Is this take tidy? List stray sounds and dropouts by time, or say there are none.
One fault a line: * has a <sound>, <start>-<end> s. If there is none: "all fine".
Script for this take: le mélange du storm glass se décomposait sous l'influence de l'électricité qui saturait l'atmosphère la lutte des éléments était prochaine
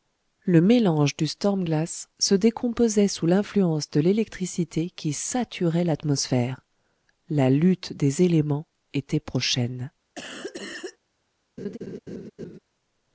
* has a cough, 10.2-11.0 s
* has a laugh, 11.6-12.6 s